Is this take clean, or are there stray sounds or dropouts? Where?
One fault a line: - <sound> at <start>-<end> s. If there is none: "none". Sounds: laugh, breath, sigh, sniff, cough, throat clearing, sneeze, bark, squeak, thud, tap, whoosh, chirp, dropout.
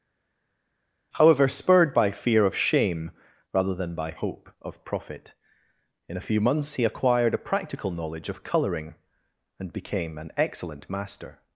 none